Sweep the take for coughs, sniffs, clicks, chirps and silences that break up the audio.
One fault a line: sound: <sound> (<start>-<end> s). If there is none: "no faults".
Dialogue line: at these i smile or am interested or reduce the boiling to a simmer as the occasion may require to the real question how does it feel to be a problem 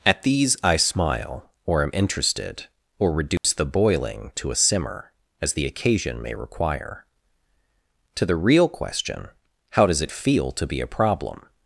sound: dropout (3.4-3.4 s)